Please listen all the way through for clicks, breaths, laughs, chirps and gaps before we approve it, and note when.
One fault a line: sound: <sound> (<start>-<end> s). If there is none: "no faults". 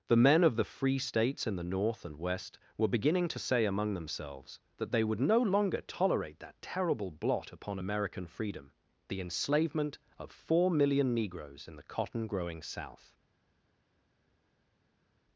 no faults